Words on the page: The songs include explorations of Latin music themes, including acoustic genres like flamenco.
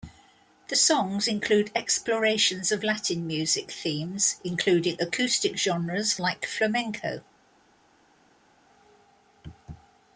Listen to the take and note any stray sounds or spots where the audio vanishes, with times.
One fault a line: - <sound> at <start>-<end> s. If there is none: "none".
none